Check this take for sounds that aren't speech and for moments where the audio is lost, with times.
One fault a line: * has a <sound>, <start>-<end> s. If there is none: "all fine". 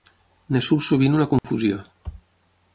* has a dropout, 1.4-1.4 s